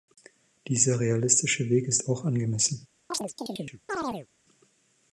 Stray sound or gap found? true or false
true